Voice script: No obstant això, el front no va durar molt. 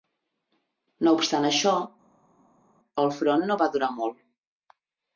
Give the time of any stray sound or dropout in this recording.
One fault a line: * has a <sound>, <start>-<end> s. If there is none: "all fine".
all fine